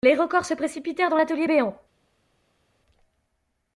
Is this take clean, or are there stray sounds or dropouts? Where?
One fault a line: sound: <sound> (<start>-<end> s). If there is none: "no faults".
no faults